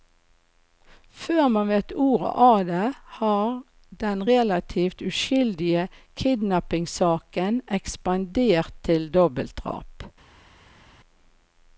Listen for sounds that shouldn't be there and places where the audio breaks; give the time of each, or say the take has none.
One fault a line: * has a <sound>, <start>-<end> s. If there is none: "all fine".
all fine